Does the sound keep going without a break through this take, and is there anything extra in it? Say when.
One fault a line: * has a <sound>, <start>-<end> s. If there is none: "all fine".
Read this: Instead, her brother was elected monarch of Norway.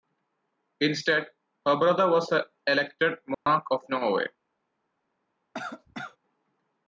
* has a dropout, 3.3-3.5 s
* has a cough, 5.5-6.2 s